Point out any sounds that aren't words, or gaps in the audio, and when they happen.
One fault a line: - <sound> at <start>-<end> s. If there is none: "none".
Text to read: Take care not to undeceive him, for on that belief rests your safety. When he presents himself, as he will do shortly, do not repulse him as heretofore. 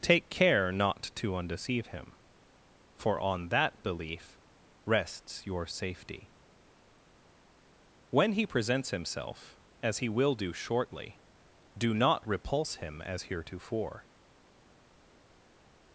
none